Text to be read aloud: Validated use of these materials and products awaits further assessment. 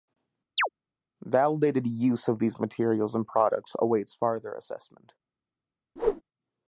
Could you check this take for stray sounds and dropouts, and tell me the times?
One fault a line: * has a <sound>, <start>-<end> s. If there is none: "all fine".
* has a chirp, 0.6-0.7 s
* has a whoosh, 6.0-6.2 s